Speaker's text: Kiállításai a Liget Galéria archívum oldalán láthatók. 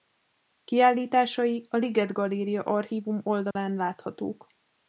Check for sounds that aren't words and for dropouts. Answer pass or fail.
fail